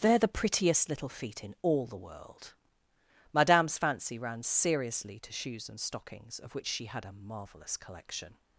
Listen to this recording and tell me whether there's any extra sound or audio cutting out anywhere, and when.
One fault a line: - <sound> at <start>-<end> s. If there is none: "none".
none